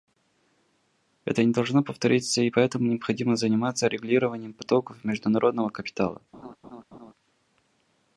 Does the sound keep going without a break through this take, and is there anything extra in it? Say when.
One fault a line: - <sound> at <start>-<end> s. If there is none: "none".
- laugh at 6.3-7.1 s